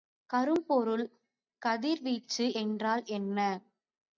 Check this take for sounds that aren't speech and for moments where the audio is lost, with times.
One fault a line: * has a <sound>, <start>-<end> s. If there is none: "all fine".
all fine